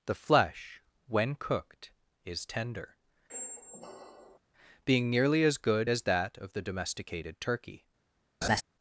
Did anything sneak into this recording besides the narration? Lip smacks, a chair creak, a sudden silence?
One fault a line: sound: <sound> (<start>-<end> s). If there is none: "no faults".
sound: squeak (3.3-4.4 s)
sound: laugh (8.4-8.6 s)